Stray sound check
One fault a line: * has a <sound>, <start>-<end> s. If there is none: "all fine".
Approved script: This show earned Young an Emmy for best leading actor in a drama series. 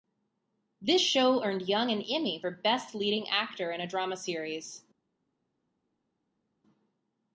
all fine